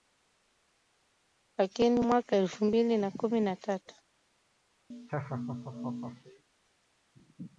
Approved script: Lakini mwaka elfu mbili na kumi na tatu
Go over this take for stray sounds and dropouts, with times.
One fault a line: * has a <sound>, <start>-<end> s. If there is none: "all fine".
* has a laugh, 4.9-6.4 s